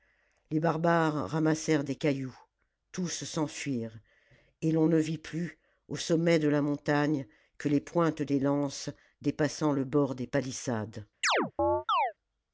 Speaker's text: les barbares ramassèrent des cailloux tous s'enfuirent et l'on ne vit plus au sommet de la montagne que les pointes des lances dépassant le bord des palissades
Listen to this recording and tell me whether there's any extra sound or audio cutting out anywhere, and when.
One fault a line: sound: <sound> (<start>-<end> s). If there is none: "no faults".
sound: chirp (11.2-12.1 s)